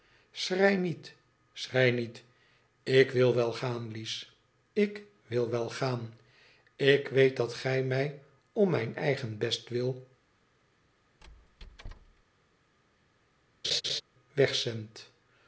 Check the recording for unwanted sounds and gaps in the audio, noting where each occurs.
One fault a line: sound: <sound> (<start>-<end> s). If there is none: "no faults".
sound: squeak (11.2-12.2 s)
sound: laugh (13.6-14.0 s)